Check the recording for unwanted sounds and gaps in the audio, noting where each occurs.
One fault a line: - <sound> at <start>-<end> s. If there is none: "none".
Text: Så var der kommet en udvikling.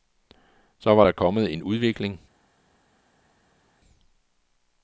none